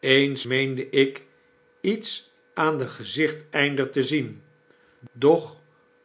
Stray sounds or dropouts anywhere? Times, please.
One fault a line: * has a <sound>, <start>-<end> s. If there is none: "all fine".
all fine